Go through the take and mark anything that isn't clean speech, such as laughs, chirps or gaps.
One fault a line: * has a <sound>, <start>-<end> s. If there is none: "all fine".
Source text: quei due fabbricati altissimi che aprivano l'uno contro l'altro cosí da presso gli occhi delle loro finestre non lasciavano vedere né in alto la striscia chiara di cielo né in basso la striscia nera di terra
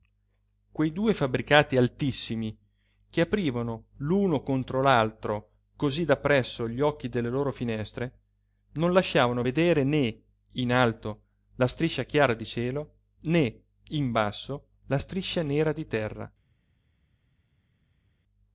all fine